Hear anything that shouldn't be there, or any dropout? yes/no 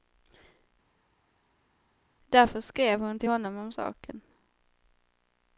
no